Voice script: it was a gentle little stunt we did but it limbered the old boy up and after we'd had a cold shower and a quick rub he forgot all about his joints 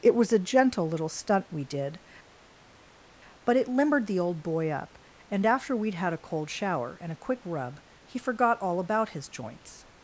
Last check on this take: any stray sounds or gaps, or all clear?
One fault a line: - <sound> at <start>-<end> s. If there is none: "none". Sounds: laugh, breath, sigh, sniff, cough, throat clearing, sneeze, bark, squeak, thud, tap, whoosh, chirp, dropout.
none